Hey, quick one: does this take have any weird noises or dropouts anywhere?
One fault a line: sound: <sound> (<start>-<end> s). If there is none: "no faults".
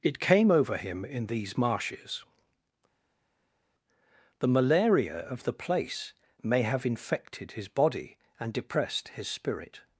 no faults